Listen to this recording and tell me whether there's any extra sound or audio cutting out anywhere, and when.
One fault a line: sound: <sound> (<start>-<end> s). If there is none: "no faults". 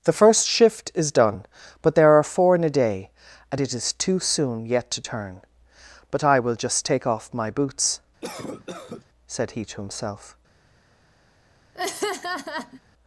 sound: cough (8.2-9.1 s)
sound: laugh (11.7-12.8 s)